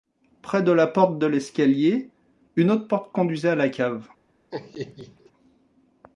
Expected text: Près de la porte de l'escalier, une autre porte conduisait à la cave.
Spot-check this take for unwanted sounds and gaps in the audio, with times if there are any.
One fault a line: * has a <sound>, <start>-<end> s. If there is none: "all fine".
* has a laugh, 4.5-5.3 s